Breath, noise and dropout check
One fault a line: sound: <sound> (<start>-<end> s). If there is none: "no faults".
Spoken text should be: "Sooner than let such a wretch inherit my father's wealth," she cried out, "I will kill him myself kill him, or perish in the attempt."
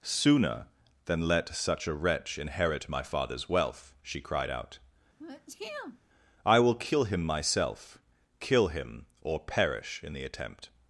sound: sneeze (5.2-6.0 s)